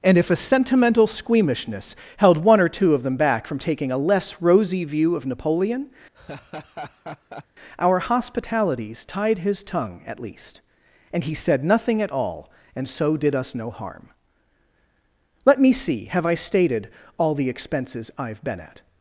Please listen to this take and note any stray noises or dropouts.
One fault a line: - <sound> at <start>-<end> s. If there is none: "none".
- laugh at 6.1-7.5 s